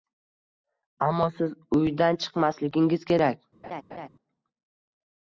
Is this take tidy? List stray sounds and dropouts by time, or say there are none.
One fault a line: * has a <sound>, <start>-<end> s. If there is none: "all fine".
* has a laugh, 3.6-4.1 s